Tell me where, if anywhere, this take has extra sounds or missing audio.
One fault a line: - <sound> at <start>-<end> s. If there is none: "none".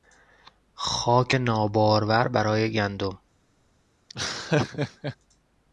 - laugh at 4.1-5.2 s